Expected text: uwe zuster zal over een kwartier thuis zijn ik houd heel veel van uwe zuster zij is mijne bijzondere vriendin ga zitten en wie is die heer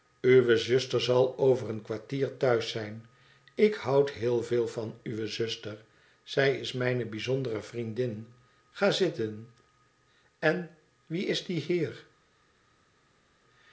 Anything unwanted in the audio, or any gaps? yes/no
no